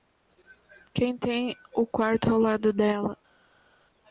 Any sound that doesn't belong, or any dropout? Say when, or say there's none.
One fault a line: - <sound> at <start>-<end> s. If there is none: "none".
none